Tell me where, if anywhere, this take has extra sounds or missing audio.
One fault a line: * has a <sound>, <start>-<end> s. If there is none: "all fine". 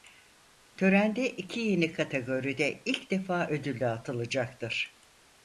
all fine